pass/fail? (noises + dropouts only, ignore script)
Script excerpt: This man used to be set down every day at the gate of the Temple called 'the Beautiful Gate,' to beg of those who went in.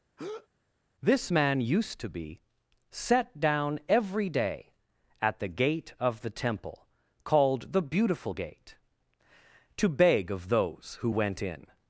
fail